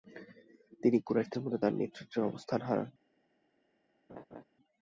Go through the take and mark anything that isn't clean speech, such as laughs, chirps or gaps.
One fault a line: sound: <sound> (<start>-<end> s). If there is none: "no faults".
sound: laugh (4.1-4.4 s)